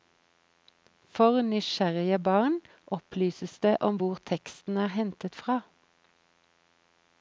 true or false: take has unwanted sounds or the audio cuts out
false